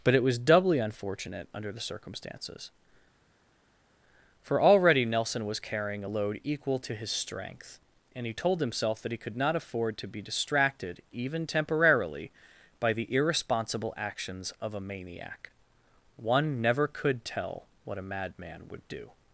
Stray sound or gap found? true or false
false